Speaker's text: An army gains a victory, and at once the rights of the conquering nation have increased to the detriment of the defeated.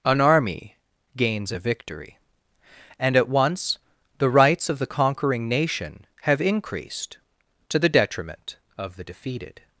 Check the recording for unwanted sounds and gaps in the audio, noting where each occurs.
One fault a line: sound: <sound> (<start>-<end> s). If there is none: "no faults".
no faults